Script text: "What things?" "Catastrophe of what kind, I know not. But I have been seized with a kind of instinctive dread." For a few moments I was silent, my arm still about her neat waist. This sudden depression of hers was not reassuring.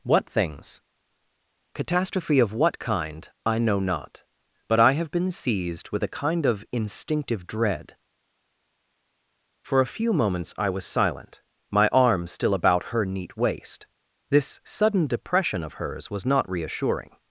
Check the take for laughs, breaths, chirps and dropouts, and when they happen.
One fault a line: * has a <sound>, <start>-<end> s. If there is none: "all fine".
all fine